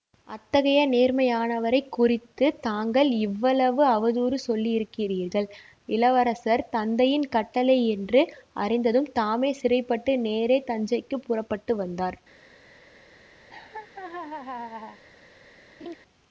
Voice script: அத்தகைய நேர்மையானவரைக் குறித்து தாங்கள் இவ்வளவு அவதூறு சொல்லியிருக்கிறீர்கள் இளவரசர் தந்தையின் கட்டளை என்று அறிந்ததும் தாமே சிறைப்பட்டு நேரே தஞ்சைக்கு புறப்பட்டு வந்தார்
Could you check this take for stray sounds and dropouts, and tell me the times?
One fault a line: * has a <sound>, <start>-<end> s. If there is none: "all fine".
* has a laugh, 13.5-15.0 s
* has a laugh, 15.8-16.0 s